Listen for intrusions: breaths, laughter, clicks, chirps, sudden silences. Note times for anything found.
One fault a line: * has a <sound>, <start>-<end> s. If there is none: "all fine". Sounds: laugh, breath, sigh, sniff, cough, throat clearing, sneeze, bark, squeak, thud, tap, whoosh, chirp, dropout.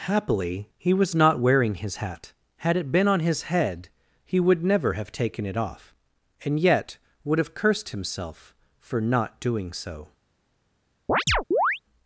* has a chirp, 11.1-11.8 s